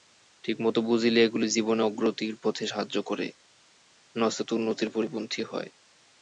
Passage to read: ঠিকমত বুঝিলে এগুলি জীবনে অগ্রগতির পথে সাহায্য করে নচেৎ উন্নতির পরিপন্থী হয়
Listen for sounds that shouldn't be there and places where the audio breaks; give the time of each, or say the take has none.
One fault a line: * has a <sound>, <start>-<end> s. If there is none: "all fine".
all fine